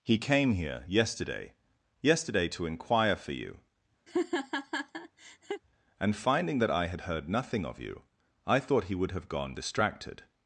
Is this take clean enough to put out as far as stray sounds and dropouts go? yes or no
no